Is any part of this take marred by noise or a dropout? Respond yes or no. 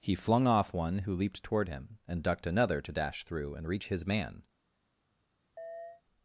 yes